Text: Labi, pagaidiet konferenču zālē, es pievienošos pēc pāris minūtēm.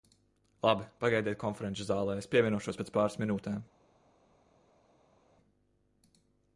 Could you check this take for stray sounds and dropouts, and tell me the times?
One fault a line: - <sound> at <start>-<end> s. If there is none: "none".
none